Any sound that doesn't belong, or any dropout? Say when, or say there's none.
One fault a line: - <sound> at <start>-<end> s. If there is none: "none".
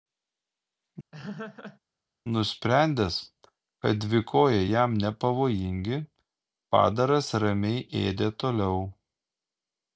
- laugh at 1.1-1.8 s